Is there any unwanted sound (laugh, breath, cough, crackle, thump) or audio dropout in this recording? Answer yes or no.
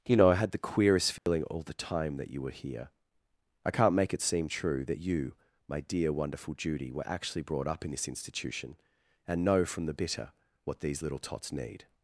yes